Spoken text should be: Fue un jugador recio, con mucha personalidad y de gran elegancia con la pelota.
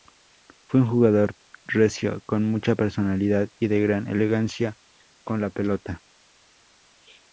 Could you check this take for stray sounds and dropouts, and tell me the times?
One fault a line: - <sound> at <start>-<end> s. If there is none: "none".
none